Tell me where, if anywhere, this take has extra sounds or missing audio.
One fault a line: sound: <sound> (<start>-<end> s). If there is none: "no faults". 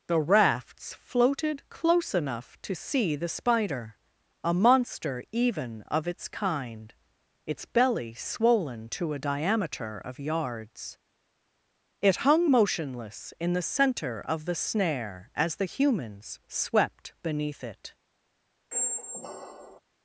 sound: squeak (18.7-19.8 s)